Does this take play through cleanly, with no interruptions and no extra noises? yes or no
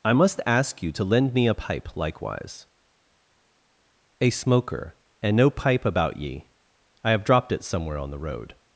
yes